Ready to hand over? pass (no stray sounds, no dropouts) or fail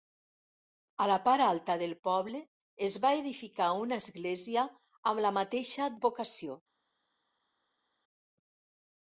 pass